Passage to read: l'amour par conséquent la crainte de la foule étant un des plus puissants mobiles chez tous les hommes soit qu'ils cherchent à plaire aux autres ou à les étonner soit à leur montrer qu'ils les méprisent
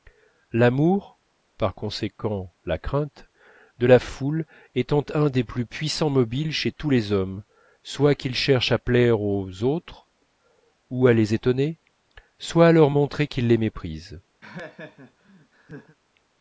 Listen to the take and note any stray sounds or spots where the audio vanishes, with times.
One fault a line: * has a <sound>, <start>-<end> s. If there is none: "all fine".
* has a laugh, 14.4-16.0 s